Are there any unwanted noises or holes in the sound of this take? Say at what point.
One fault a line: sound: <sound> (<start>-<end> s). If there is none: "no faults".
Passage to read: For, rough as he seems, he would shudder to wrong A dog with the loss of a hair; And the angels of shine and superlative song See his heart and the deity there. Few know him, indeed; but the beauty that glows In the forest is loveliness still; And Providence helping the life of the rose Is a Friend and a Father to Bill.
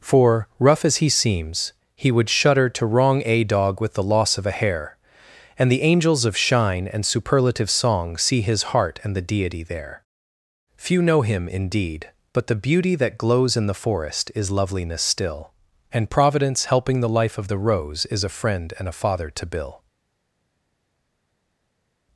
no faults